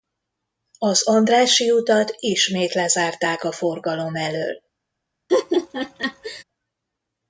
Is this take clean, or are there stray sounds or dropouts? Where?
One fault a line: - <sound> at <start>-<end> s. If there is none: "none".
- laugh at 5.3-6.4 s